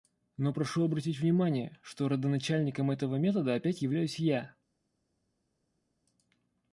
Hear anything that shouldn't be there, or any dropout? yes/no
no